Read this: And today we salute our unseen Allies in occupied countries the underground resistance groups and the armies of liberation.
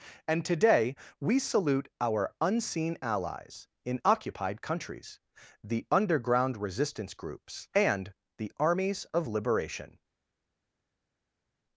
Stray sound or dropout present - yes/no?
no